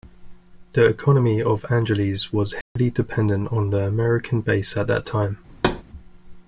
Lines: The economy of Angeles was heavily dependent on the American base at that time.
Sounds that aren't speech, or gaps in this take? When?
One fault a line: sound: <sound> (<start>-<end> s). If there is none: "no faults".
sound: dropout (2.6-2.8 s)
sound: thud (5.5-5.8 s)